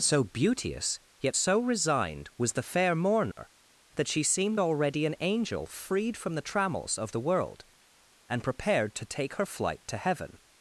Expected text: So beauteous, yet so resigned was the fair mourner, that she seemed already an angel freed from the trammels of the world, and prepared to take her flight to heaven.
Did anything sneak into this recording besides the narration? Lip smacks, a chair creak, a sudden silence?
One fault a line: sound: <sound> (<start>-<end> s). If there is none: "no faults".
sound: dropout (3.3-3.4 s)